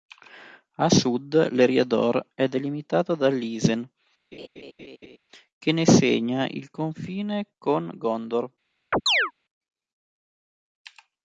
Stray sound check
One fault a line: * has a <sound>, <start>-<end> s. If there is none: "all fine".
* has a laugh, 4.3-5.2 s
* has a chirp, 8.9-9.3 s